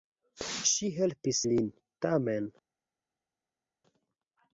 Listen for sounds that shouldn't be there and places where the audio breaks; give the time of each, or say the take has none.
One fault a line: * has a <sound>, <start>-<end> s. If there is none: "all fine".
all fine